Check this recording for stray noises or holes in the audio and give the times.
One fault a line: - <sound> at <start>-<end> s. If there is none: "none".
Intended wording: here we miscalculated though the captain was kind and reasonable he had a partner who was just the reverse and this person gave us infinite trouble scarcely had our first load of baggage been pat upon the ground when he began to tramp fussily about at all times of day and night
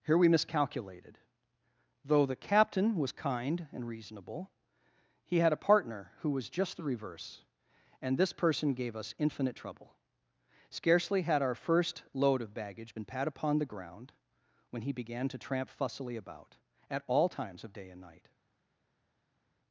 none